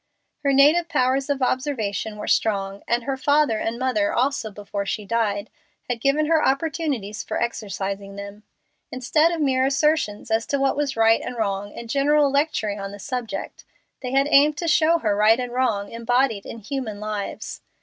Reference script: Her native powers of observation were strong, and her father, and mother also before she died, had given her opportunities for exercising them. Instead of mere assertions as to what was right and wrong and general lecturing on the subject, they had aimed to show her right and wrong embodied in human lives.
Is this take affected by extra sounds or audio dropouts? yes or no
no